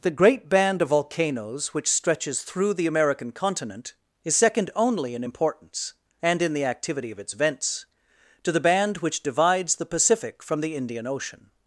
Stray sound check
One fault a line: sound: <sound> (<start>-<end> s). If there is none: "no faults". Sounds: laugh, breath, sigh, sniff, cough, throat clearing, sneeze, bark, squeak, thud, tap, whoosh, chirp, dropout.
no faults